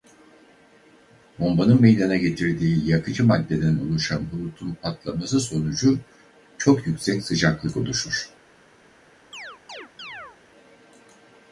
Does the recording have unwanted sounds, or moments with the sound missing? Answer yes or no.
yes